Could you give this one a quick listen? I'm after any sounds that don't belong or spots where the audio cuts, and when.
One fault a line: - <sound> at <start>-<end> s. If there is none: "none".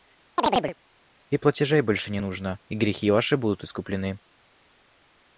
- chirp at 0.4-0.8 s